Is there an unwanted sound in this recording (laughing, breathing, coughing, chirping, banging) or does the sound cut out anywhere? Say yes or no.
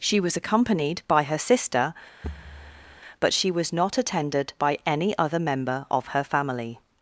yes